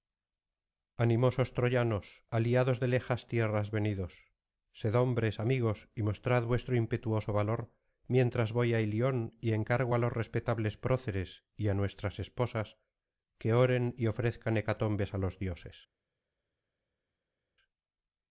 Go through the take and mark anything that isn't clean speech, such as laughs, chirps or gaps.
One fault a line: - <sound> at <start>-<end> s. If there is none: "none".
none